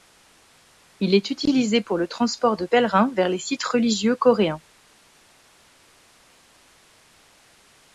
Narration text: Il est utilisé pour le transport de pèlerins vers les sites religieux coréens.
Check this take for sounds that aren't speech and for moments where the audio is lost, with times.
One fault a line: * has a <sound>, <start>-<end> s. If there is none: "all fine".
all fine